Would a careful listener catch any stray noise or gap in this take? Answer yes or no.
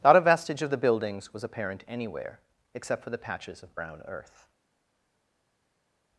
no